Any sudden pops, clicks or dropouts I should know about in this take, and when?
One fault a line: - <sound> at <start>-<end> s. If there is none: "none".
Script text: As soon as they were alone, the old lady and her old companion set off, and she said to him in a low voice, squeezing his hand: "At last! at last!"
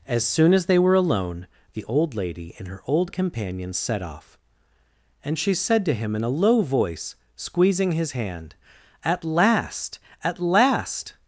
none